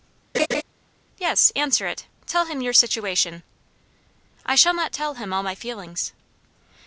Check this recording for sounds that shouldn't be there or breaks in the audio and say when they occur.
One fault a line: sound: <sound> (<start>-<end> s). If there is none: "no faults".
sound: laugh (0.3-0.6 s)